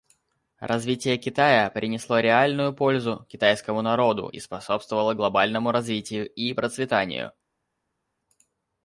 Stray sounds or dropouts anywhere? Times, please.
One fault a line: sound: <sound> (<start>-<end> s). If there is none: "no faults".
no faults